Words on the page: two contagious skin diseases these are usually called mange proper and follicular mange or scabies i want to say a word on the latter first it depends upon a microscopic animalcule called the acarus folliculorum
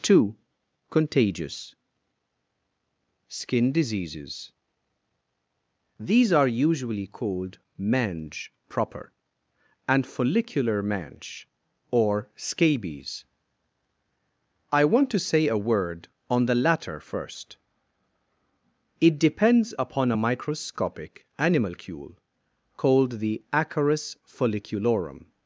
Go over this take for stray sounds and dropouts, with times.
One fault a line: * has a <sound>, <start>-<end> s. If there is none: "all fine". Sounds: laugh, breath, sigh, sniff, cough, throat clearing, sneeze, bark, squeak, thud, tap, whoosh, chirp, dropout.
all fine